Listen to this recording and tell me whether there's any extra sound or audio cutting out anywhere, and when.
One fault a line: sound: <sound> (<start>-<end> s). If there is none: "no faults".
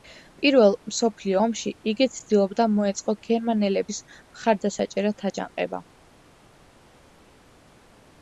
no faults